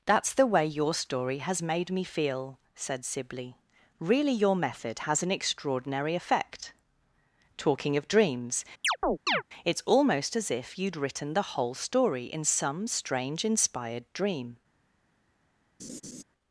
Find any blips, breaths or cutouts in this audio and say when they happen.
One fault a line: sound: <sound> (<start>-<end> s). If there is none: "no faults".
sound: chirp (8.8-9.4 s)
sound: laugh (15.8-16.2 s)